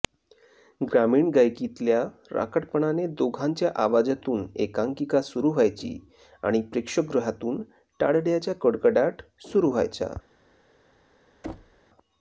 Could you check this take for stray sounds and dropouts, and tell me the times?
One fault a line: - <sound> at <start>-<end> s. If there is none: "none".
- thud at 11.4-11.8 s